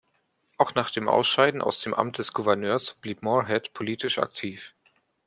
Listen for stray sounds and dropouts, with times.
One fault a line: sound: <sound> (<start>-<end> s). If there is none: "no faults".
no faults